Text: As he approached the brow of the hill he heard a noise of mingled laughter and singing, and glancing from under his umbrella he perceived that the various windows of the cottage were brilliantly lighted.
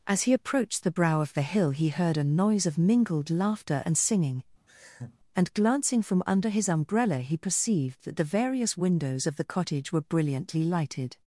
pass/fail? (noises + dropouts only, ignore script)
fail